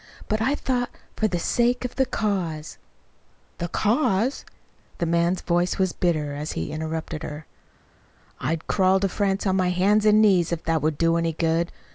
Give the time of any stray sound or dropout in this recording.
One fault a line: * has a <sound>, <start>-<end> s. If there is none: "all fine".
all fine